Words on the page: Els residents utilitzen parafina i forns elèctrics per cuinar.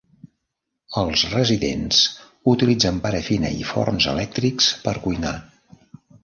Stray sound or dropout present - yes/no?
no